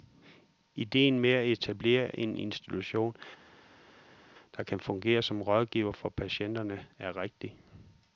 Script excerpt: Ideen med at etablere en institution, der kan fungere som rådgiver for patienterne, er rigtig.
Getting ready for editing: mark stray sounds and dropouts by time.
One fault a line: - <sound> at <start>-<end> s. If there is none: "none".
none